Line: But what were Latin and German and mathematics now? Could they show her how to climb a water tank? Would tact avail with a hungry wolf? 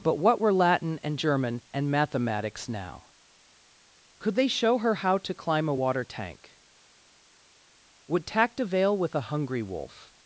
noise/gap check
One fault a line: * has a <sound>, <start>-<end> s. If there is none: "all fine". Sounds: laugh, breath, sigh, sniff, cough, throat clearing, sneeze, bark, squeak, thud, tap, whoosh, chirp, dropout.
all fine